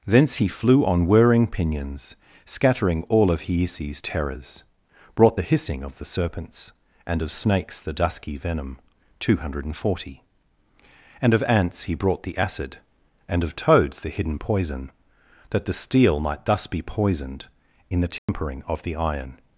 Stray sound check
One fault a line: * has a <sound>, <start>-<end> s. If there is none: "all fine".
* has a dropout, 18.2-18.3 s